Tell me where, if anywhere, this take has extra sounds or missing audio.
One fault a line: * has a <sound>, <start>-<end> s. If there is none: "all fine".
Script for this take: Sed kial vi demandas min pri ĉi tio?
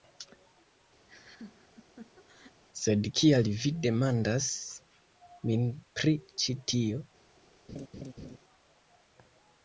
* has a laugh, 1.1-2.6 s
* has a laugh, 7.7-8.4 s